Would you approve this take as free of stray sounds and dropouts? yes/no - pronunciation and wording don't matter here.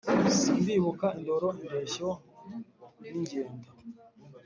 yes